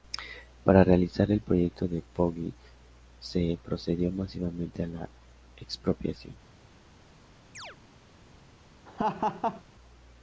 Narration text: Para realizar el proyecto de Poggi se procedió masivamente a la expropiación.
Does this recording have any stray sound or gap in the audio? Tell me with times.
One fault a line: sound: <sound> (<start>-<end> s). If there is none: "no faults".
sound: chirp (7.5-7.8 s)
sound: laugh (8.9-9.6 s)